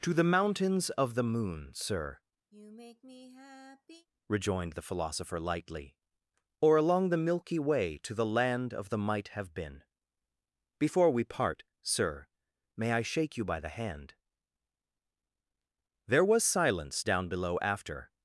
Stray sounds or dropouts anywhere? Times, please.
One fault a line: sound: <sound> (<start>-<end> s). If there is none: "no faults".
sound: sigh (2.5-4.1 s)